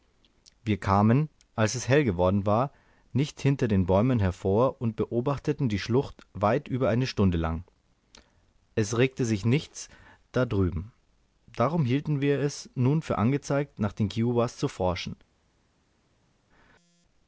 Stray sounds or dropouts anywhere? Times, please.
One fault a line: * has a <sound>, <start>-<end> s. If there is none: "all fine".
all fine